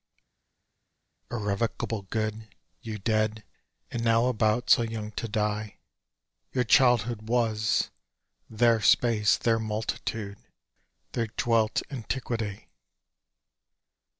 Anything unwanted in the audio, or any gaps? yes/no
no